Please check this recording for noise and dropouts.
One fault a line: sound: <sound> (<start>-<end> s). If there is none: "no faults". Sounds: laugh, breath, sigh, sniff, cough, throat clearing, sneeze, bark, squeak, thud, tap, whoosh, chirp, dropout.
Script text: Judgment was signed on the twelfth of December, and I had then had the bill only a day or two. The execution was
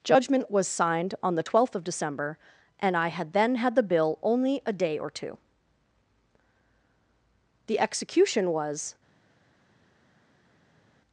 no faults